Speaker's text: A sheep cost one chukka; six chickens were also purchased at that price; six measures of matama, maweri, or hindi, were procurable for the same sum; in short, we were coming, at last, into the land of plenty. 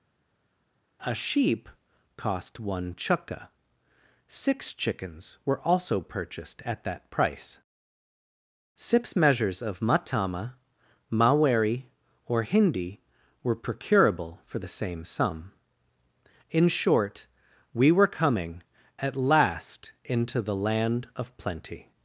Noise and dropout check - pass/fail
pass